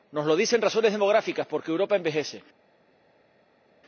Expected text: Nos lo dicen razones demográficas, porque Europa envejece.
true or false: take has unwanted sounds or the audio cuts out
false